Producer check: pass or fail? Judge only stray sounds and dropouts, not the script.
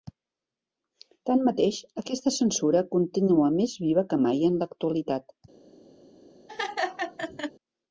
fail